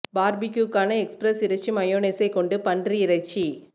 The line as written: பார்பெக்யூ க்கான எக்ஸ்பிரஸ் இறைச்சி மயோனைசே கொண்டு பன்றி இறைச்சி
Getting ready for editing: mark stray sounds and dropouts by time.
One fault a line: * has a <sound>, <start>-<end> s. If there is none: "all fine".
all fine